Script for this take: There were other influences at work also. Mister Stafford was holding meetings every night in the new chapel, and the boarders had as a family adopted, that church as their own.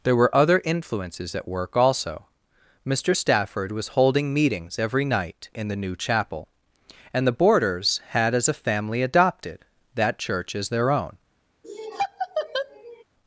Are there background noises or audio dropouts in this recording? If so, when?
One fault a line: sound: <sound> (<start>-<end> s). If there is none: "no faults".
sound: laugh (11.6-13.0 s)